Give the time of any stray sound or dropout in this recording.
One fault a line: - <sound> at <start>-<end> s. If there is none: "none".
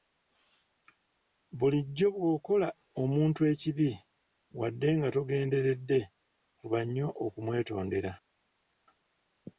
none